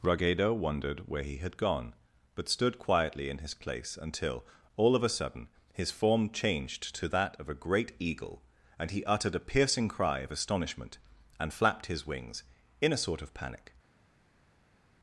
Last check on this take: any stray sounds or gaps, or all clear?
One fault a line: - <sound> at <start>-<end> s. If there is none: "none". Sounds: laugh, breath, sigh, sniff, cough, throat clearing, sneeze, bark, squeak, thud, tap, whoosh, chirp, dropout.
none